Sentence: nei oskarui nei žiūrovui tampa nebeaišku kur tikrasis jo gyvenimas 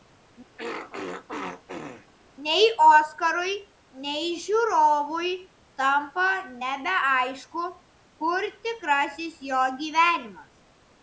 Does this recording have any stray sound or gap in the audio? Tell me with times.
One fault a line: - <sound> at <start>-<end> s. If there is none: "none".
- throat clearing at 0.6-2.1 s